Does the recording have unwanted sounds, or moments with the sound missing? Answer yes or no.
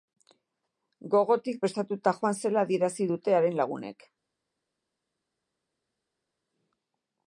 no